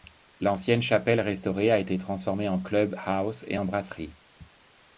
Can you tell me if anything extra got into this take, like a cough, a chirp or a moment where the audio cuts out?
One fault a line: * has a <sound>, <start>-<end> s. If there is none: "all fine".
all fine